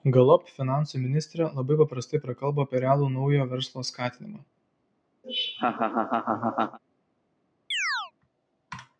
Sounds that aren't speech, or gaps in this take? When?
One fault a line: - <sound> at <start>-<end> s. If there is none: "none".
- laugh at 5.2-6.8 s
- chirp at 7.7-8.1 s